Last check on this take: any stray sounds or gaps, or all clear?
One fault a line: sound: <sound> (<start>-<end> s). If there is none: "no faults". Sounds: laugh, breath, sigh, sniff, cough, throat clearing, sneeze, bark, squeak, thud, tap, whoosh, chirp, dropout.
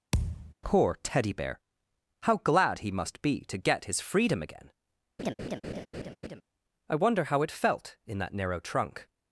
sound: thud (0.1-0.5 s)
sound: laugh (5.2-6.4 s)